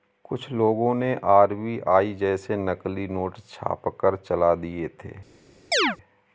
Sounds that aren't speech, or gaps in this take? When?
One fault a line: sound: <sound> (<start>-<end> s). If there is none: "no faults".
sound: chirp (5.7-6.0 s)